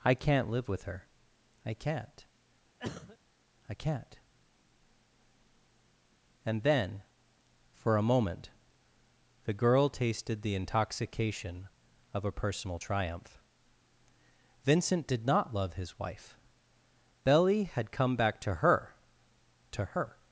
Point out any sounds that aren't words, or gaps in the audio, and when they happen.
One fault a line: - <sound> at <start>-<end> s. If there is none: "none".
- cough at 2.8-3.2 s